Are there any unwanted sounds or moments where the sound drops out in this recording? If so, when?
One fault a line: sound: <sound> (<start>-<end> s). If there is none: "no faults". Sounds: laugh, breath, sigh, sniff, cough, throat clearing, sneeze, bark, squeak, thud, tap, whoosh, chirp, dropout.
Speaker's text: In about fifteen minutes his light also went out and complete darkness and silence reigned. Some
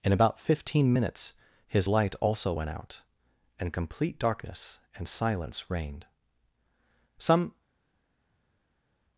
no faults